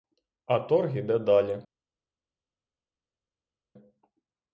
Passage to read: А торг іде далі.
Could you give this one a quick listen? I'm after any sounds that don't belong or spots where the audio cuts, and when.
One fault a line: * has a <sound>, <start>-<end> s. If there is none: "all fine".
all fine